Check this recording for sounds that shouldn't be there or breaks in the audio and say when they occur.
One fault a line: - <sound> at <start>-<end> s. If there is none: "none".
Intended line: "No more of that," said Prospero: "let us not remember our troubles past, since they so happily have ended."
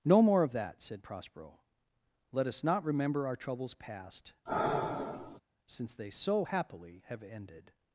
- sigh at 4.5-5.4 s